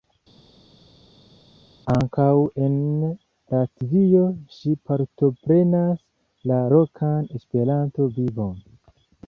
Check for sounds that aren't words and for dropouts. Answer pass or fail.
pass